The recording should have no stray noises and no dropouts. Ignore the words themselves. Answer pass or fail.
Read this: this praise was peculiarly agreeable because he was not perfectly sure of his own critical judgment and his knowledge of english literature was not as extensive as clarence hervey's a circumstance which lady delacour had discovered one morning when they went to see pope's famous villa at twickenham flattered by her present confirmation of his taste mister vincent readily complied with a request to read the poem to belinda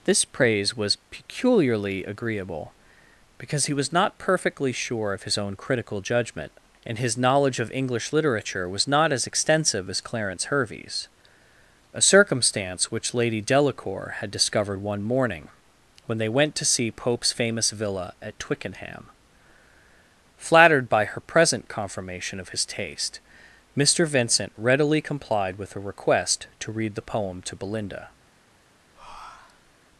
fail